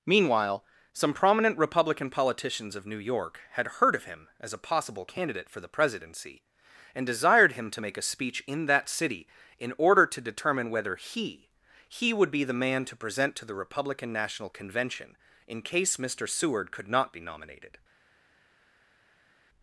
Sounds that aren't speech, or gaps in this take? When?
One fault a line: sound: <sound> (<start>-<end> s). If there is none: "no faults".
no faults